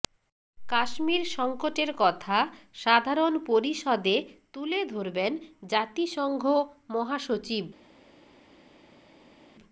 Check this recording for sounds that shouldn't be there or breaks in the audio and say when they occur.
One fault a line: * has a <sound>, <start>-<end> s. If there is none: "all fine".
all fine